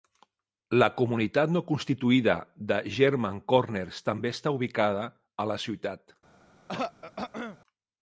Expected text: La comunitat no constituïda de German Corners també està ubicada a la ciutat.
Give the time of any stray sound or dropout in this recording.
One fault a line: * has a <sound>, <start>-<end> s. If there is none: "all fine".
* has a throat clearing, 6.7-7.6 s